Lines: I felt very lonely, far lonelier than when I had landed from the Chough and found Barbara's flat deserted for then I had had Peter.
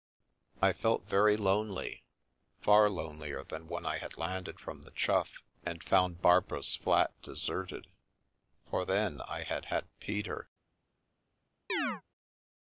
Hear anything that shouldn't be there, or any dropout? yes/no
yes